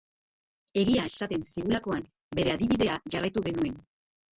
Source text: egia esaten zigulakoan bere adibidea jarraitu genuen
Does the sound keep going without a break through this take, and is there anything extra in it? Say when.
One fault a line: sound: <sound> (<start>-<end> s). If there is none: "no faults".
no faults